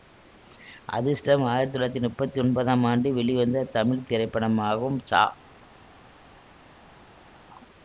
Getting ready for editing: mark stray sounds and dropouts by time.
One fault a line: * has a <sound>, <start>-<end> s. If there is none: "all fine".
all fine